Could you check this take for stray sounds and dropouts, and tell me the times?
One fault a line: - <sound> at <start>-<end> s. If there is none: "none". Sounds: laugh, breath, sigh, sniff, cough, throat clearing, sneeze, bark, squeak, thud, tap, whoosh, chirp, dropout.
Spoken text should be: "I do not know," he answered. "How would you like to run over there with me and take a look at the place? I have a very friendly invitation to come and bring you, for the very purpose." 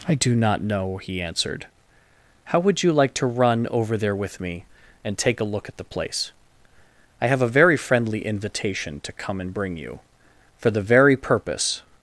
none